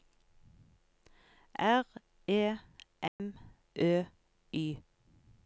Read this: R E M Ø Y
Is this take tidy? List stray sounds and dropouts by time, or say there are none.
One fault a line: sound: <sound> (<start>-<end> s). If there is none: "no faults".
sound: dropout (3.1-3.2 s)